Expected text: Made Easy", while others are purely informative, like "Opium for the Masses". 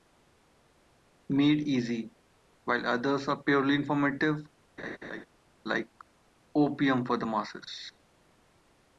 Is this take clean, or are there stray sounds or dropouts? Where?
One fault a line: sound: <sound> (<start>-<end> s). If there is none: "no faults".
sound: laugh (4.8-5.3 s)